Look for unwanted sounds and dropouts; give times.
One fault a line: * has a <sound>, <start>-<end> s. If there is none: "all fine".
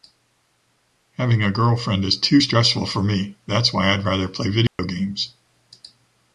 * has a dropout, 4.7-4.8 s